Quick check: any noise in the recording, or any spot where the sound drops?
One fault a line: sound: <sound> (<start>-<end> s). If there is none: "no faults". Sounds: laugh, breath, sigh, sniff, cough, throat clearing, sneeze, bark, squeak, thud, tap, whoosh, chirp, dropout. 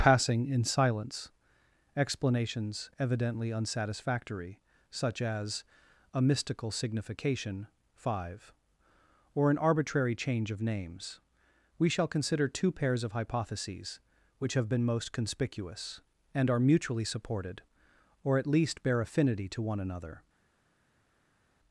no faults